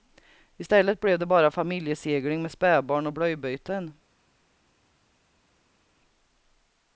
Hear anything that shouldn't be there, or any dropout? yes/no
no